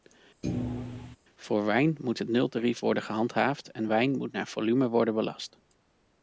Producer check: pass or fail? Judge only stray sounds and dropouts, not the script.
fail